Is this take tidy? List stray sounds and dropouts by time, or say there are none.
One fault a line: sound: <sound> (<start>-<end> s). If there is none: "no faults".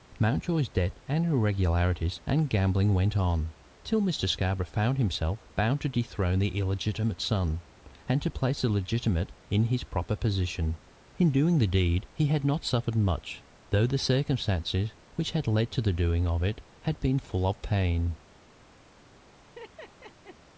sound: laugh (19.4-20.4 s)